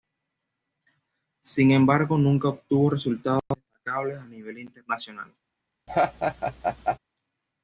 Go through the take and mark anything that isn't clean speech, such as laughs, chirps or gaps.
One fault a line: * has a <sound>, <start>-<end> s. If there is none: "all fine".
* has a laugh, 5.9-7.0 s